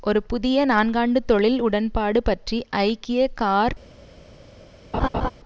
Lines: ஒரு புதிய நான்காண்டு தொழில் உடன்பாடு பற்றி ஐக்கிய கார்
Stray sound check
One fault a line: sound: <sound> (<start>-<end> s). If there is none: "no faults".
sound: laugh (4.9-5.3 s)